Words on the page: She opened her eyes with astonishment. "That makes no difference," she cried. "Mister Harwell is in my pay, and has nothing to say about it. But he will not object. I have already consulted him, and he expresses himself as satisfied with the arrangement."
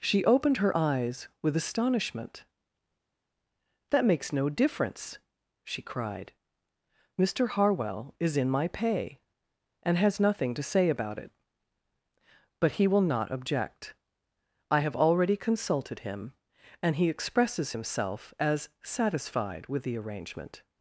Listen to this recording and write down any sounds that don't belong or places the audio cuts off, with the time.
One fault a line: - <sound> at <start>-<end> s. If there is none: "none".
none